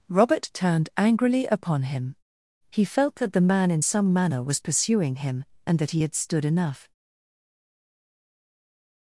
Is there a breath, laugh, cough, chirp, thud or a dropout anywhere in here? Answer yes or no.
no